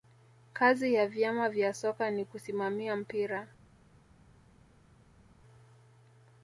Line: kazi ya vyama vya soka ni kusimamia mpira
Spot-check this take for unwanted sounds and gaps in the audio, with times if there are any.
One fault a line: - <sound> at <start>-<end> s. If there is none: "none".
none